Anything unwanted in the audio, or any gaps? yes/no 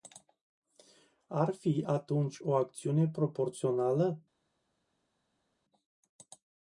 no